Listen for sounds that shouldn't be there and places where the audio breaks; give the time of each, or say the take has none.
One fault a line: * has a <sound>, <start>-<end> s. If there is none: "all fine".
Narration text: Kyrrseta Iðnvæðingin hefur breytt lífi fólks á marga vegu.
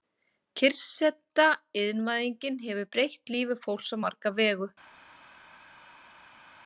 all fine